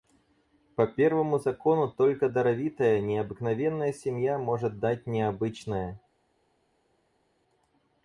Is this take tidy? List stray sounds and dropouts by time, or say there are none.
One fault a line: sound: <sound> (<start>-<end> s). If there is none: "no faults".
no faults